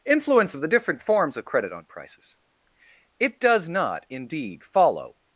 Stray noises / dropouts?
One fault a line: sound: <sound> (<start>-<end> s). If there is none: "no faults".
no faults